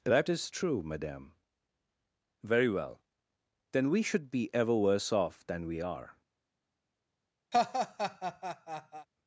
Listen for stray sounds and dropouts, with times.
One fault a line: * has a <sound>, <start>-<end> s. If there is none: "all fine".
* has a laugh, 7.5-9.1 s